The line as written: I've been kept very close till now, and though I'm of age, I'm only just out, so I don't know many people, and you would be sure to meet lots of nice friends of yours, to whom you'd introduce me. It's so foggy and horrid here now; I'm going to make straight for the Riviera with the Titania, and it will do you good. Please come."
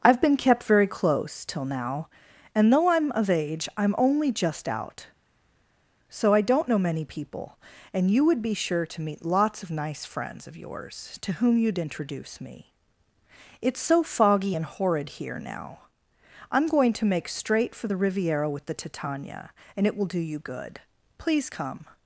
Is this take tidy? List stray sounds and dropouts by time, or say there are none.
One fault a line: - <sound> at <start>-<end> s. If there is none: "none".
none